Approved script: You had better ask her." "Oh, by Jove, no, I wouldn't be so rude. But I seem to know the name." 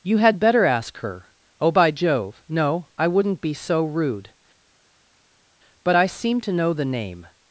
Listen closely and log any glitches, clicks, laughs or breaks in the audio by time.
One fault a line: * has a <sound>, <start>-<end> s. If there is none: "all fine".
all fine